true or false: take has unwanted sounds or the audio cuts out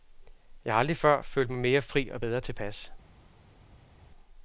false